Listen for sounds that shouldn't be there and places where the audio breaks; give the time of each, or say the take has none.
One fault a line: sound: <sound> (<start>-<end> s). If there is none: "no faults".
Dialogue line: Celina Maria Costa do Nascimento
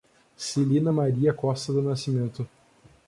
no faults